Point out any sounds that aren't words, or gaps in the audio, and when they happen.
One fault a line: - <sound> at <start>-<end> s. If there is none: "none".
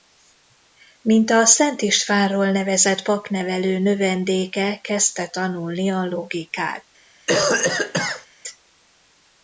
- cough at 7.3-8.3 s